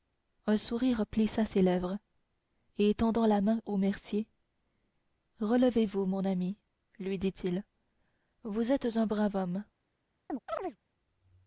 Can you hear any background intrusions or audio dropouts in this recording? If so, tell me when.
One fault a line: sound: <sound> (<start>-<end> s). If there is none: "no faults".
sound: chirp (10.3-10.8 s)